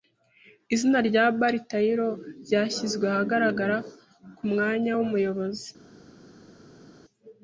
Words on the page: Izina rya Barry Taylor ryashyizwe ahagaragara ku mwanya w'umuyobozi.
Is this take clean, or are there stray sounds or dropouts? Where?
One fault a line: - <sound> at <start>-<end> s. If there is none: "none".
none